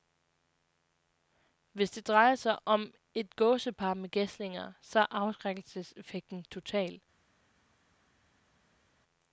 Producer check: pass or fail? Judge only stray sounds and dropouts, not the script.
pass